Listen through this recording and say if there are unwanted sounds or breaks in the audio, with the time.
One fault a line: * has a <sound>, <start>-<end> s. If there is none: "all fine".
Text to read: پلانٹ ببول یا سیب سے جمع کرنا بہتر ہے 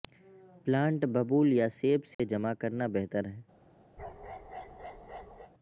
* has a dropout, 2.1-2.2 s
* has a bark, 4.0-5.5 s